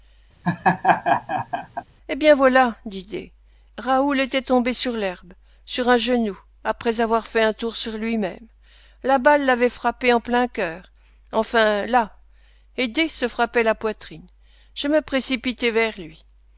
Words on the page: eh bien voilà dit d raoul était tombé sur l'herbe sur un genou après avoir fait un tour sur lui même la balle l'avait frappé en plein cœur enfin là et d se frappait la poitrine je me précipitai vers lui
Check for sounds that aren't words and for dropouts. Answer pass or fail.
fail